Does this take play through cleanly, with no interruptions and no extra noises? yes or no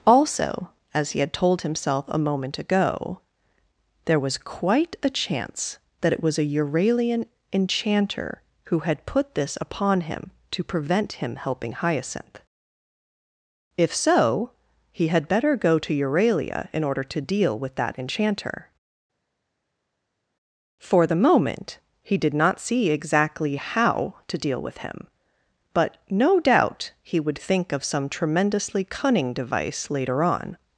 yes